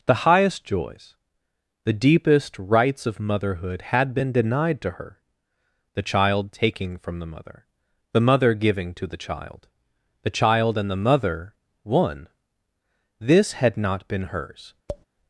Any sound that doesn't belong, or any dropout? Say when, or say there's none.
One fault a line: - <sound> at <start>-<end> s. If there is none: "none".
- tap at 14.9-15.1 s